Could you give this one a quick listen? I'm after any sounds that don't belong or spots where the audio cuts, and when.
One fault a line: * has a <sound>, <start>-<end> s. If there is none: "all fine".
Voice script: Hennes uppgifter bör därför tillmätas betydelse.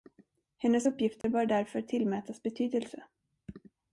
* has a dropout, 1.2-1.2 s